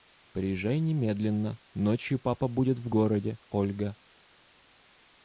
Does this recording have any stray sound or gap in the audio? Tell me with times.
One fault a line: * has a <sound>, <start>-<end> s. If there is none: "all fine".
all fine